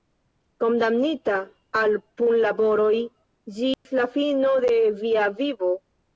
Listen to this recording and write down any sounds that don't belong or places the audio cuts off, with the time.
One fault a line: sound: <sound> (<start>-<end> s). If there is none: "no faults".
sound: dropout (3.7-3.9 s)